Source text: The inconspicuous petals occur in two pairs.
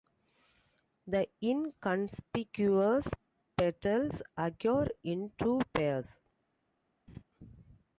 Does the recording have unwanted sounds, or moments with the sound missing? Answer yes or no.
yes